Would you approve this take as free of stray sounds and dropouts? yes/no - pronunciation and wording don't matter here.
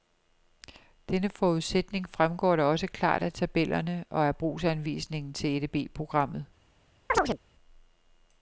no